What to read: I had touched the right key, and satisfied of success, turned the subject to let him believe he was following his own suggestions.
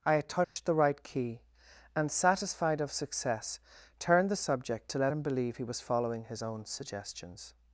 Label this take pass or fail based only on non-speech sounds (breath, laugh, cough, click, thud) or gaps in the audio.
fail